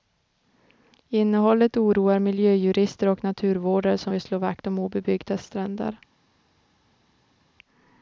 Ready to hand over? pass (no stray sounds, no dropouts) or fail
pass